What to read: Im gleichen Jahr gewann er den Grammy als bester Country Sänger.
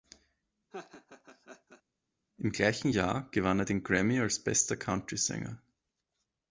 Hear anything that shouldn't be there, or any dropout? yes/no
yes